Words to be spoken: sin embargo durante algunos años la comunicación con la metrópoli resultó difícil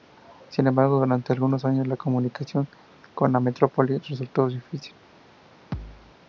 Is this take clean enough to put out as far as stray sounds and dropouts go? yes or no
no